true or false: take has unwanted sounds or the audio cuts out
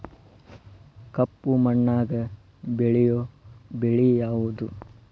false